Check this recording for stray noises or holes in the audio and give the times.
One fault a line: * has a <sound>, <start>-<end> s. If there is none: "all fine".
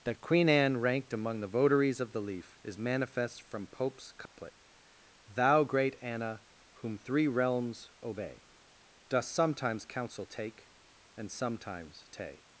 * has a dropout, 4.3-4.4 s